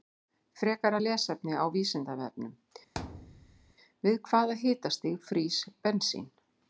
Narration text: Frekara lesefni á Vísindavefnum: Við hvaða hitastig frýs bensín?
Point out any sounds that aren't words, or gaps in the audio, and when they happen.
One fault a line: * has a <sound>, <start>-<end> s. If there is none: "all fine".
* has a thud, 3.0-3.7 s